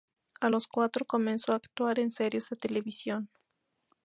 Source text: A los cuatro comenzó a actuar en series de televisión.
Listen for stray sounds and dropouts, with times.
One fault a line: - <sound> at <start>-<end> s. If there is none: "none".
none